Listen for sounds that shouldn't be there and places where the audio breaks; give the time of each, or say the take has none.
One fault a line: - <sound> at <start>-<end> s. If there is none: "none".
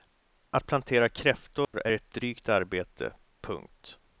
- dropout at 1.6-1.7 s